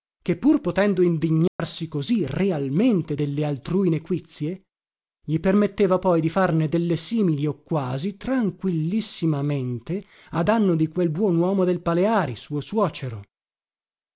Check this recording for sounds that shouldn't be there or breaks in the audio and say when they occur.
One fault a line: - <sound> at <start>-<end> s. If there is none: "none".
- dropout at 1.5-1.6 s